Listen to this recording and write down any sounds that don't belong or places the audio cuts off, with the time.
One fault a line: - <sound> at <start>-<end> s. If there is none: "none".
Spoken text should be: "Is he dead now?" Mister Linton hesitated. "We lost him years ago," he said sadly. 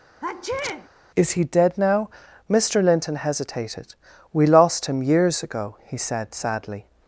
- sneeze at 0.2-0.9 s